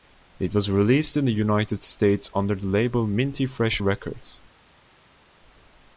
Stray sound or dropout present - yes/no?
no